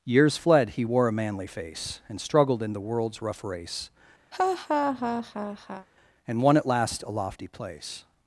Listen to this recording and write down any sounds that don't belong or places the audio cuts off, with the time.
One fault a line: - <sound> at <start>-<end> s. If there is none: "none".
- laugh at 4.3-5.9 s